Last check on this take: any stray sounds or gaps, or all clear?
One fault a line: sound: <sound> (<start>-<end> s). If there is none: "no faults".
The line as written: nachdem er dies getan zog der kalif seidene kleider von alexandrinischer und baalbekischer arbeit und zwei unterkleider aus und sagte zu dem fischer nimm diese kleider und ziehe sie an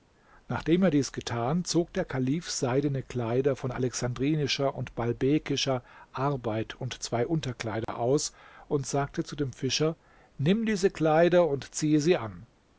sound: dropout (7.8-7.9 s)